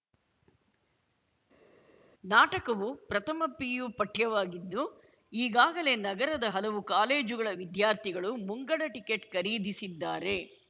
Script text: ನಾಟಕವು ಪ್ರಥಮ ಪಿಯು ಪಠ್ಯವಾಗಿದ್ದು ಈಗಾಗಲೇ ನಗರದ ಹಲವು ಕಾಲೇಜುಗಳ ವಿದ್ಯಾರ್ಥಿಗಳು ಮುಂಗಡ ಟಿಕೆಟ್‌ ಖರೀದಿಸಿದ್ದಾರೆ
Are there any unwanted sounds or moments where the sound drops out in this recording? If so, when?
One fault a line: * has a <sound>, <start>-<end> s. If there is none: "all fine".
all fine